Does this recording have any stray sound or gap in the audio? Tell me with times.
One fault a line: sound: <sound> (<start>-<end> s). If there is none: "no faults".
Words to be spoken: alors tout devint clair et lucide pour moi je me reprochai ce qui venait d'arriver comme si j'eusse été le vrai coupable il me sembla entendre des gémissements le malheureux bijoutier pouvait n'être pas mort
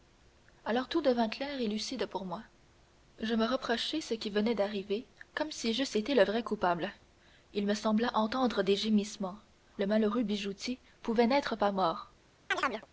sound: chirp (12.5-12.9 s)